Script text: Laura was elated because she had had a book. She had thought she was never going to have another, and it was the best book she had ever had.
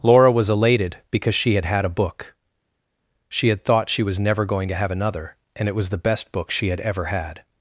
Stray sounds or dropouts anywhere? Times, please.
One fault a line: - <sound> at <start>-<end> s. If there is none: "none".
none